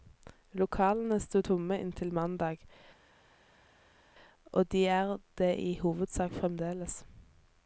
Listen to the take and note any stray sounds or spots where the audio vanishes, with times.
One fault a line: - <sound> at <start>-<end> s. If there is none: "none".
none